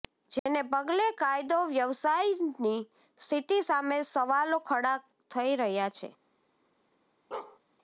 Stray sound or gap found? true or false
true